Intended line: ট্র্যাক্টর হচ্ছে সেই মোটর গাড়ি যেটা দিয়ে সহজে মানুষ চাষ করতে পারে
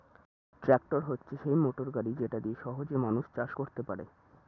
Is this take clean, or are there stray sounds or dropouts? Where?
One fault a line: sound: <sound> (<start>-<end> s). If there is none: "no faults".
no faults